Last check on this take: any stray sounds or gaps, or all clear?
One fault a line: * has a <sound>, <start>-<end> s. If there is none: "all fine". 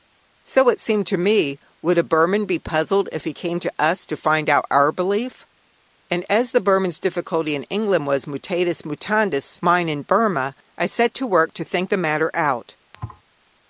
* has a thud, 12.9-13.2 s